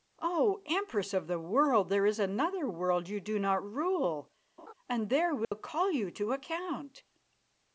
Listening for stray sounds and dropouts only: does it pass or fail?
fail